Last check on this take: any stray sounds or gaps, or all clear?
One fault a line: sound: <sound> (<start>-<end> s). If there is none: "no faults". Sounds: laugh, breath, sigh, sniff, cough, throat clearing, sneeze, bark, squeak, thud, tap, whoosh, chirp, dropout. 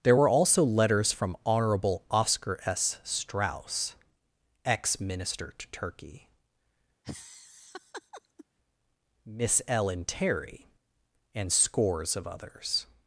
sound: laugh (7.0-8.5 s)